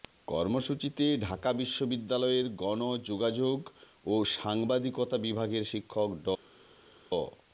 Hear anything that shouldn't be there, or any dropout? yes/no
no